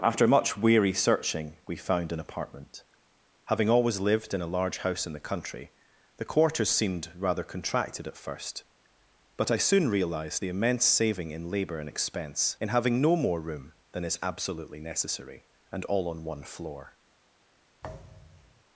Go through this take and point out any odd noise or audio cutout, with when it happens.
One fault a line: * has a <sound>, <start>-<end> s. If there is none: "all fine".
* has a thud, 17.8-18.6 s